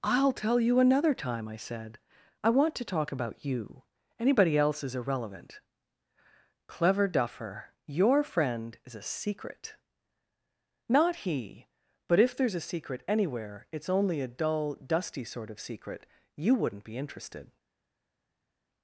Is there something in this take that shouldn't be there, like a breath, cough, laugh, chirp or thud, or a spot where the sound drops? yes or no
no